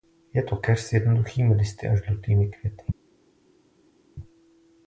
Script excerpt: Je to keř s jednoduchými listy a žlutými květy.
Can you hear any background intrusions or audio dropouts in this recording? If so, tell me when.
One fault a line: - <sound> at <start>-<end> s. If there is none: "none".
none